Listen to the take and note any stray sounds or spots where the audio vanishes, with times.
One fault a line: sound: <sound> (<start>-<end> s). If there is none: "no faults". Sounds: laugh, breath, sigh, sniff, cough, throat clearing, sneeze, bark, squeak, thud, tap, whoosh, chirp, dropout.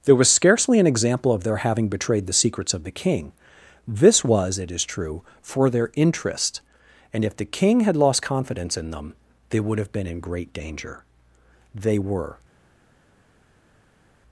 no faults